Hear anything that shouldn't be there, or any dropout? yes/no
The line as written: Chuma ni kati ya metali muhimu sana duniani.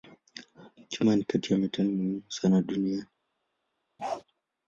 yes